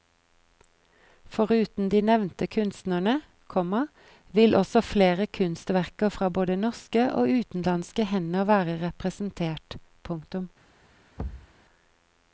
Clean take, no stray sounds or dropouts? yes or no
no